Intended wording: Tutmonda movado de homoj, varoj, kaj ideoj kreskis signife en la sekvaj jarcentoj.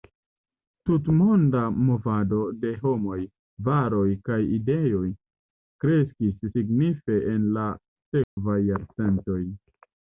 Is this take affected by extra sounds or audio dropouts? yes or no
yes